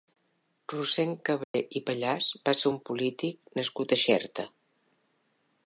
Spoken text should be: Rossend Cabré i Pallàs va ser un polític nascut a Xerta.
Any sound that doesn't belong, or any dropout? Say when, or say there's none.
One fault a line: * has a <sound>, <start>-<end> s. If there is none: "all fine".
* has a dropout, 1.4-1.5 s